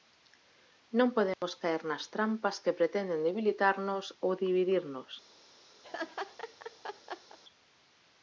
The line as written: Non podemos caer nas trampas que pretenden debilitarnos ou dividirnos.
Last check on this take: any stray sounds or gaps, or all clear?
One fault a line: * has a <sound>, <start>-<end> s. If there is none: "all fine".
* has a dropout, 1.3-1.4 s
* has a laugh, 5.8-7.4 s